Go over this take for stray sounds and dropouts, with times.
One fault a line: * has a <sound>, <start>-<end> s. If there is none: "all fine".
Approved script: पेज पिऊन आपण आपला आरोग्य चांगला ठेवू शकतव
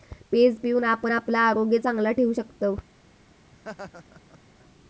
* has a laugh, 3.5-4.4 s